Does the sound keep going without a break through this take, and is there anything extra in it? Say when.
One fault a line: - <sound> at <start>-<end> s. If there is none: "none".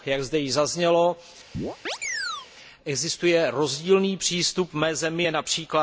- chirp at 1.5-2.5 s